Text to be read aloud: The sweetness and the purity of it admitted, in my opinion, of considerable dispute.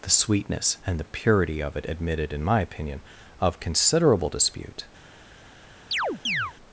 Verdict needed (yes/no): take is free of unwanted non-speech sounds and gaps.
no